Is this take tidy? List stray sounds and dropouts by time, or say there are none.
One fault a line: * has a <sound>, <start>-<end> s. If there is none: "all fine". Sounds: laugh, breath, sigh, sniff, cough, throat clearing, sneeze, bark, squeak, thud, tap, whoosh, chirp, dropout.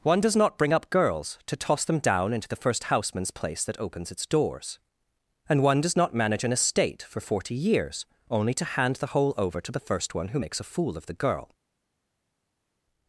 all fine